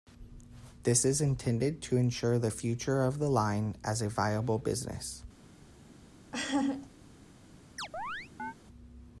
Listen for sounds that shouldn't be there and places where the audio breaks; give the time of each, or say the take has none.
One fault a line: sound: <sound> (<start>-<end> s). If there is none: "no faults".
sound: laugh (6.3-6.9 s)
sound: chirp (7.8-8.5 s)